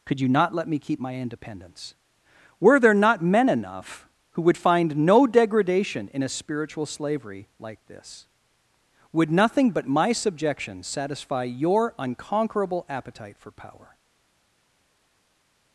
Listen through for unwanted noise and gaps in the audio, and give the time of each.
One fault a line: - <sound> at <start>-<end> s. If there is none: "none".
none